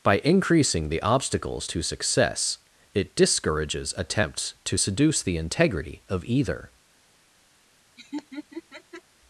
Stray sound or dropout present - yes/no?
yes